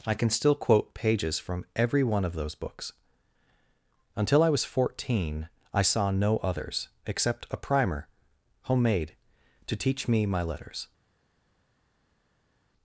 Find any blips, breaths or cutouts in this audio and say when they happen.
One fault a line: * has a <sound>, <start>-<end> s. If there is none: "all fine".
all fine